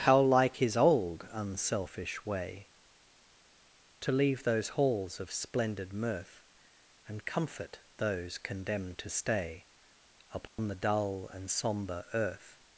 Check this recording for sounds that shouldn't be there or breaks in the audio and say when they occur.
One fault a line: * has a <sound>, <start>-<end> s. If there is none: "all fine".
* has a dropout, 10.5-10.6 s